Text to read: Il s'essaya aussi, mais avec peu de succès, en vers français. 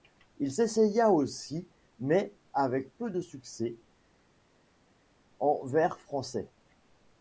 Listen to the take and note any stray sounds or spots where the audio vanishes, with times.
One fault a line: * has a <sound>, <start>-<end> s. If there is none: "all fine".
all fine